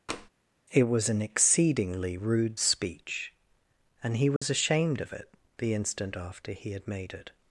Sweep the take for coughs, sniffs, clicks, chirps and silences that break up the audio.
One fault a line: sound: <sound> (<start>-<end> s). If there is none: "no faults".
sound: tap (0.1-0.3 s)
sound: dropout (4.4-4.4 s)